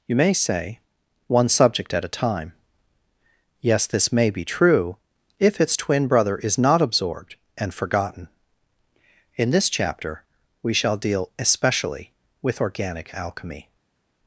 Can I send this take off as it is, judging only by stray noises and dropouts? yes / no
yes